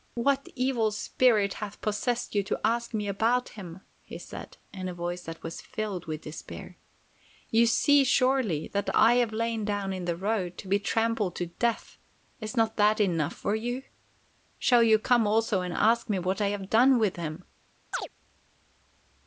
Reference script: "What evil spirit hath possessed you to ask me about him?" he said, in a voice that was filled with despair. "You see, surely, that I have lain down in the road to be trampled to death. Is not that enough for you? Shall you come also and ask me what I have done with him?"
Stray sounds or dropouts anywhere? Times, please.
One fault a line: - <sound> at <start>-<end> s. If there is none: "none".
- chirp at 17.9-18.1 s